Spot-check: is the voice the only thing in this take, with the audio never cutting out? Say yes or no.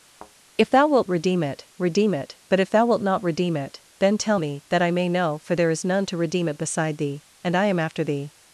no